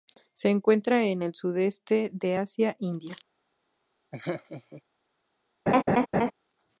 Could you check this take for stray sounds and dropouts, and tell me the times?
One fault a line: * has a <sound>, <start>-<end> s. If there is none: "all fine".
* has a laugh, 4.1-4.8 s
* has a laugh, 5.7-6.3 s